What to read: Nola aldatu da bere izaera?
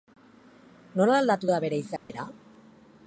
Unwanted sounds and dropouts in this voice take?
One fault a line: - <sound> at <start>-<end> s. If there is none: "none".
- dropout at 2.0-2.1 s